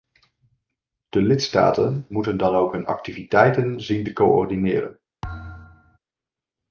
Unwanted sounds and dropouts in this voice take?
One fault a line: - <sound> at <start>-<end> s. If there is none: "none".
- thud at 5.2-6.0 s